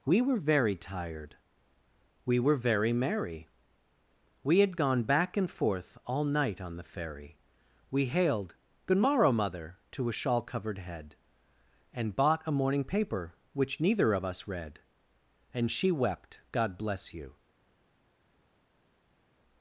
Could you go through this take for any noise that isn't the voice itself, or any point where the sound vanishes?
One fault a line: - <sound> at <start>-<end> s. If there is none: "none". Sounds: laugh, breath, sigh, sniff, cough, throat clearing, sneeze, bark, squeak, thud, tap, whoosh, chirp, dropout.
none